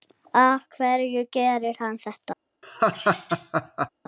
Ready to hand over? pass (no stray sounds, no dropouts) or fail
fail